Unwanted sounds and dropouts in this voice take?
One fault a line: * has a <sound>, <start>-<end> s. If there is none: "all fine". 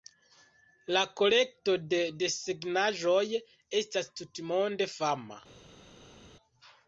all fine